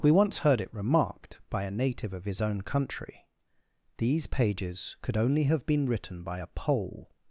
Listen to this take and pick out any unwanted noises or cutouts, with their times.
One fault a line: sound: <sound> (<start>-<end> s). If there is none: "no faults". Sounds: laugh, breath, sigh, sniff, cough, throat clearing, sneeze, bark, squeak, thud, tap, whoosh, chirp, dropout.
no faults